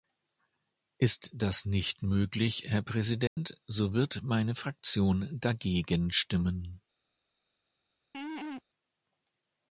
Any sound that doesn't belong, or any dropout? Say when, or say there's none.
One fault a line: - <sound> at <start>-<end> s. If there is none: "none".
- dropout at 3.3-3.4 s
- laugh at 8.1-8.6 s